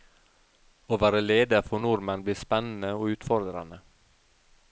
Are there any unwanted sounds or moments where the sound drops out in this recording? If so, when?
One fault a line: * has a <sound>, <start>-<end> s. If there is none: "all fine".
all fine